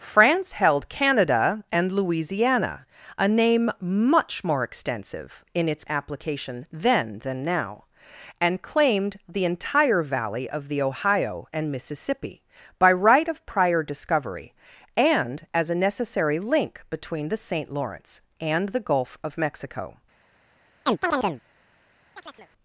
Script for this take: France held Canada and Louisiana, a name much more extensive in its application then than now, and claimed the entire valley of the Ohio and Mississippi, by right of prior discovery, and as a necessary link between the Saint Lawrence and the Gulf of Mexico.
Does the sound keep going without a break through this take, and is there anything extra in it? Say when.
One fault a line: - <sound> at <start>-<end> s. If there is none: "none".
- chirp at 20.9-21.4 s
- chirp at 22.2-22.5 s